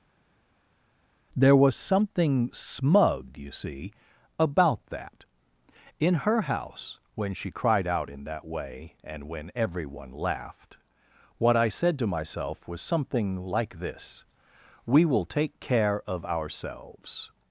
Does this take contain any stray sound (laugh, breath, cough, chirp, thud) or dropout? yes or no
no